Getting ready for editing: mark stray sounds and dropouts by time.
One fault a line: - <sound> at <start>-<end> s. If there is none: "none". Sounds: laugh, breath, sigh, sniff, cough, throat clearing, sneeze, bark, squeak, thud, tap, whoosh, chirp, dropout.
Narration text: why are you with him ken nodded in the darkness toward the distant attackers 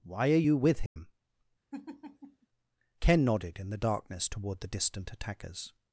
- dropout at 0.9-1.0 s
- laugh at 1.7-2.5 s